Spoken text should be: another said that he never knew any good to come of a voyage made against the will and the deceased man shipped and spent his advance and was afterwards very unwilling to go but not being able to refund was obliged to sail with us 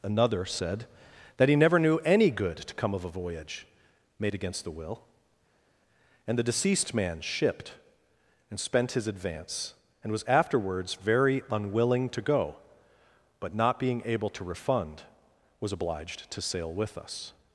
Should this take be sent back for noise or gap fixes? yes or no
no